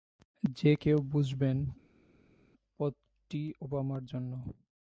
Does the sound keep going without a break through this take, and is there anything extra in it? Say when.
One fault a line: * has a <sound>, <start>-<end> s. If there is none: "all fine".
all fine